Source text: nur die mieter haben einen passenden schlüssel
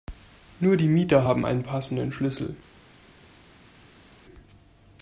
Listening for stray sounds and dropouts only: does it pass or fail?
pass